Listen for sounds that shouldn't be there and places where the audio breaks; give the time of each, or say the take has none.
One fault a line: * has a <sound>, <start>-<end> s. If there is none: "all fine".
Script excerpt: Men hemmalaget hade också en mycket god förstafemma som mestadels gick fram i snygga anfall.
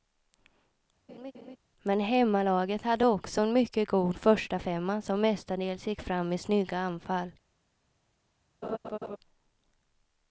* has a laugh, 1.1-1.6 s
* has a laugh, 8.6-9.2 s